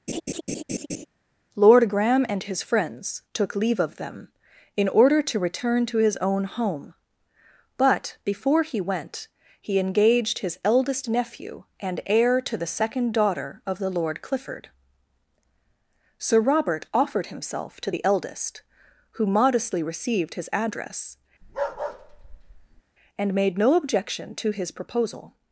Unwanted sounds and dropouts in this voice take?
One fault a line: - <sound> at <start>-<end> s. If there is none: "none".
- laugh at 0.1-1.1 s
- bark at 21.4-22.8 s